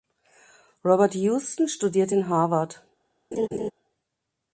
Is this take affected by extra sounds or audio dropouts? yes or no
yes